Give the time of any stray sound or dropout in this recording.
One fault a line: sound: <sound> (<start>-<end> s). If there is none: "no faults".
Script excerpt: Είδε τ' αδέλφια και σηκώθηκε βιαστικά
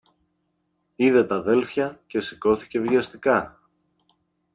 no faults